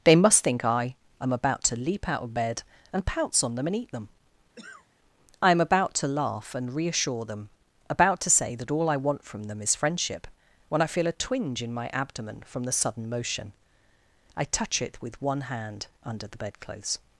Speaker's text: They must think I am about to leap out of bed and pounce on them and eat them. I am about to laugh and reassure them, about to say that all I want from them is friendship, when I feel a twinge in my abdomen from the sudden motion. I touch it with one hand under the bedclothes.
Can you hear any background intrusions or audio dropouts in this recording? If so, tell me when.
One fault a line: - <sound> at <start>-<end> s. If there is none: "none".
- cough at 4.6-4.9 s